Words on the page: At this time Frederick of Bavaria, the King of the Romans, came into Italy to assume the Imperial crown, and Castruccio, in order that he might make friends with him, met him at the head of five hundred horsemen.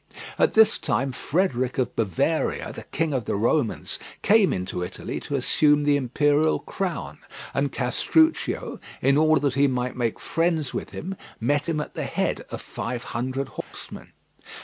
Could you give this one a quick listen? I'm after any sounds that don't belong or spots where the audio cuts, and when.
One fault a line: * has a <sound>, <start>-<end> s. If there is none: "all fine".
* has a dropout, 13.6-13.7 s